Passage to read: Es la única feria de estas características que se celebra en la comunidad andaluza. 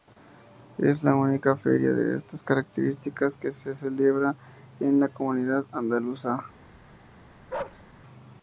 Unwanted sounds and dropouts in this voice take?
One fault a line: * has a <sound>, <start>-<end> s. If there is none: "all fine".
* has a bark, 7.5-7.8 s